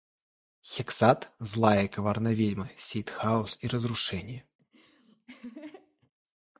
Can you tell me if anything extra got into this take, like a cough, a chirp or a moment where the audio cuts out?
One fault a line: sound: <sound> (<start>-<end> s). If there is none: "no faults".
sound: laugh (4.6-6.1 s)